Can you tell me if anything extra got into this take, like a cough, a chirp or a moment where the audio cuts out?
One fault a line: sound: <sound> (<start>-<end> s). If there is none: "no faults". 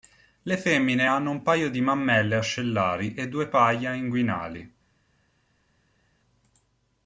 no faults